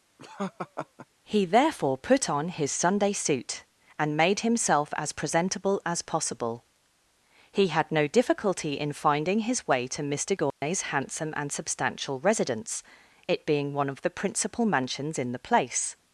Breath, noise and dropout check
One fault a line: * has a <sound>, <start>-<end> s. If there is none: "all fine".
* has a laugh, 0.2-1.1 s
* has a dropout, 10.5-10.6 s